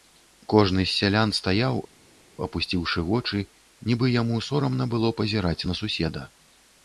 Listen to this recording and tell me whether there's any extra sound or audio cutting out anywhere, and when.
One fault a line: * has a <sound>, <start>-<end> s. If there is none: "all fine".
all fine